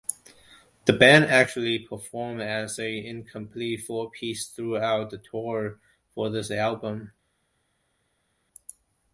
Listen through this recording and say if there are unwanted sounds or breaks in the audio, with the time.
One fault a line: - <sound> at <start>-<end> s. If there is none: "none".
none